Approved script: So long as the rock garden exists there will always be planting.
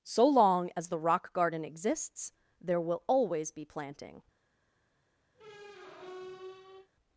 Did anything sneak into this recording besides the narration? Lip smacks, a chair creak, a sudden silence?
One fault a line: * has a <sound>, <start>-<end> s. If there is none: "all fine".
* has a squeak, 5.3-6.9 s